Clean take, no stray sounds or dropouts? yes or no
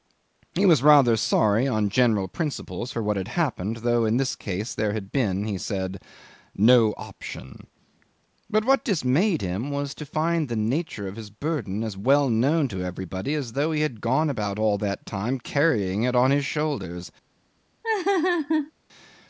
no